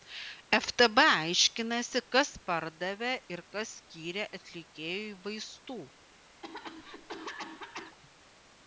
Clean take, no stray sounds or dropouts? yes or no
no